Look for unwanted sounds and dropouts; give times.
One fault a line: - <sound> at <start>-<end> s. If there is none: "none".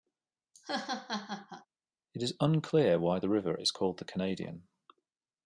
- laugh at 0.5-1.7 s